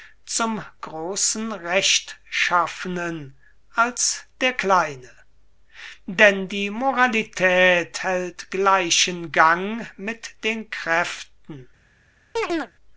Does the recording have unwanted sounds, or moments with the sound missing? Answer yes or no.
yes